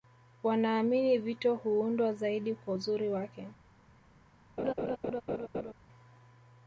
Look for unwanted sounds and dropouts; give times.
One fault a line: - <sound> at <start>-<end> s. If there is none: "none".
- laugh at 4.6-5.7 s